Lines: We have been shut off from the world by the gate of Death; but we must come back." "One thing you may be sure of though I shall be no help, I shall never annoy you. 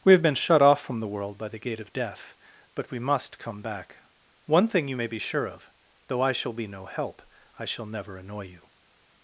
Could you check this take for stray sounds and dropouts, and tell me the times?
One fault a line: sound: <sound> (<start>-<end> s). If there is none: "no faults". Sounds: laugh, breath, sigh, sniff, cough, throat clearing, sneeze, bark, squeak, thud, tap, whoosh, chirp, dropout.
no faults